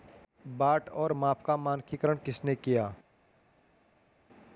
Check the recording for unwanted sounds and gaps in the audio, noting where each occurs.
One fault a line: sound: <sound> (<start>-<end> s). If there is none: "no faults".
no faults